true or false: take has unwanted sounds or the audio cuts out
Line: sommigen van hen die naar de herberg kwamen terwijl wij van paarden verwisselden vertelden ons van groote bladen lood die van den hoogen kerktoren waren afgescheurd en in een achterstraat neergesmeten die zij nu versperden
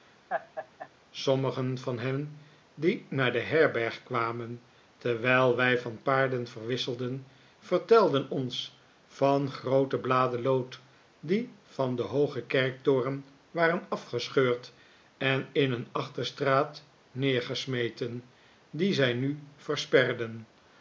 true